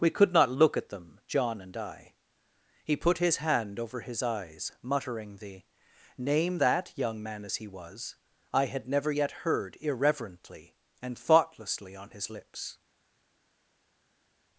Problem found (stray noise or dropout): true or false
false